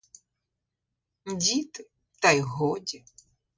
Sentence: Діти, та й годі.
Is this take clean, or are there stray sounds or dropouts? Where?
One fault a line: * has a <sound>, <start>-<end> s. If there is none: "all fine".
all fine